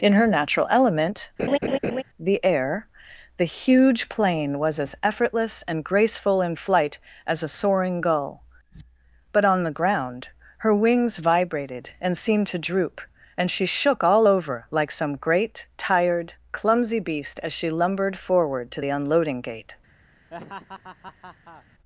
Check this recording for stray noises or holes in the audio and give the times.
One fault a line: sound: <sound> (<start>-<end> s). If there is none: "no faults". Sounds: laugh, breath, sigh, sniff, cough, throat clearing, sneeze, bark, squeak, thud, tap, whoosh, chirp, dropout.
sound: laugh (1.4-2.0 s)
sound: laugh (20.3-21.7 s)